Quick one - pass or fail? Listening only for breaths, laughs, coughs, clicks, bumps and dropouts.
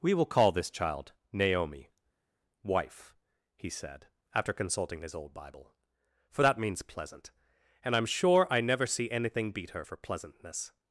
pass